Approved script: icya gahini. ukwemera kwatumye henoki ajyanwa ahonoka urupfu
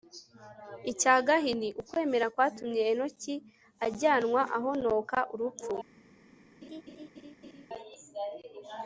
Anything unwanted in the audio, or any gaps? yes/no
yes